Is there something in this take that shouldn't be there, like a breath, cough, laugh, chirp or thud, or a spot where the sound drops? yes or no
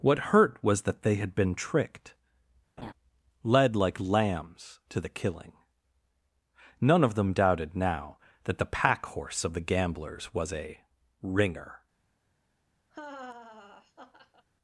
yes